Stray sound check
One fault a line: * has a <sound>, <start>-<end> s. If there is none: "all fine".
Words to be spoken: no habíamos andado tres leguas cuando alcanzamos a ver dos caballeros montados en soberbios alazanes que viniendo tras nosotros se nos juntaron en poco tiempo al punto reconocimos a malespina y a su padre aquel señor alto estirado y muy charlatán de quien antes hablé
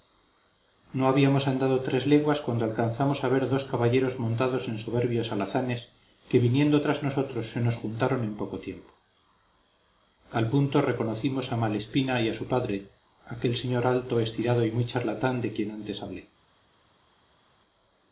all fine